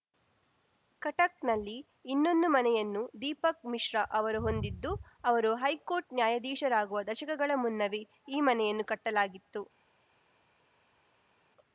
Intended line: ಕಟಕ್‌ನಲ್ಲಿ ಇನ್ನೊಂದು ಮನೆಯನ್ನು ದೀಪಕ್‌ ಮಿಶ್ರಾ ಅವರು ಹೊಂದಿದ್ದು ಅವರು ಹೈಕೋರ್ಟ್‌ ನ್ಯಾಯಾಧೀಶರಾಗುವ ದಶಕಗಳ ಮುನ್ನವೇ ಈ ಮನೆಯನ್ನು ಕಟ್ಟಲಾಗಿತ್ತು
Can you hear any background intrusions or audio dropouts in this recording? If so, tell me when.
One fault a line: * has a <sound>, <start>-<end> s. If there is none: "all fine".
all fine